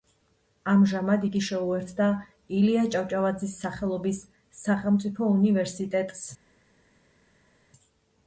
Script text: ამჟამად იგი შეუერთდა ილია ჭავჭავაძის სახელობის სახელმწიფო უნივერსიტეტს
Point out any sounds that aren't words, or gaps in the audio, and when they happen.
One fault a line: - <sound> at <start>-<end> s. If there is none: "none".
none